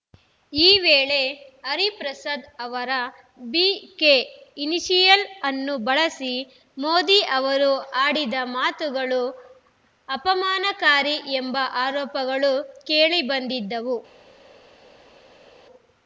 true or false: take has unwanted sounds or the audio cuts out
false